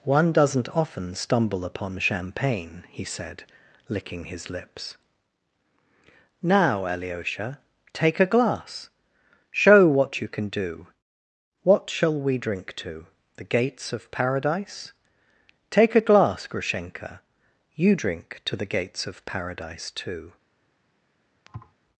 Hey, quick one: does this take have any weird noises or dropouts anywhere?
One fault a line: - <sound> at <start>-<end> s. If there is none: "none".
- thud at 21.5-21.7 s